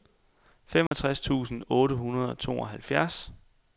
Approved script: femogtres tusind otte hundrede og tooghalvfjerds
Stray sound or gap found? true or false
true